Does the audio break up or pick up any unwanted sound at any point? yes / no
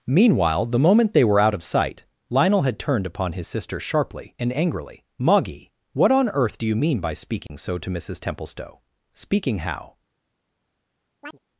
yes